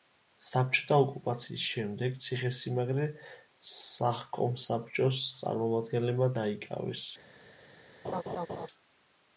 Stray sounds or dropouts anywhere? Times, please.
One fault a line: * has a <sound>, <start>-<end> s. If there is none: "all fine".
* has a laugh, 8.0-8.7 s